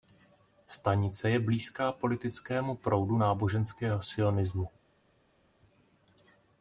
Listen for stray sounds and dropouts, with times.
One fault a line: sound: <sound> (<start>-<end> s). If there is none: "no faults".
no faults